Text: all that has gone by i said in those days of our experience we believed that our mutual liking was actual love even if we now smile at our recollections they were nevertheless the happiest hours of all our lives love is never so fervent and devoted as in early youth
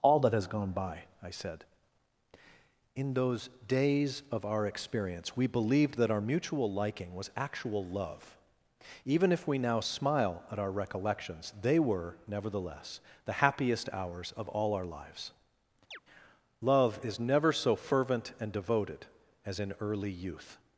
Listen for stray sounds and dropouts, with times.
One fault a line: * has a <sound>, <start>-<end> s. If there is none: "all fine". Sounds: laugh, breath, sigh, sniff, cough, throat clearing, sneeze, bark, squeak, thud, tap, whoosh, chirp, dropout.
* has a chirp, 15.9-16.0 s